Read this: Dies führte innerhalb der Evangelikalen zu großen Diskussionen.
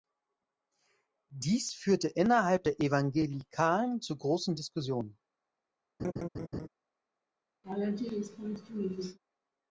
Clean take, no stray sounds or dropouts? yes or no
no